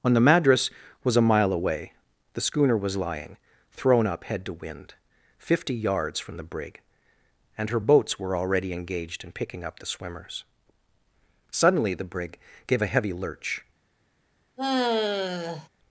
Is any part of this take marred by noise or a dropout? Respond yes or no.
yes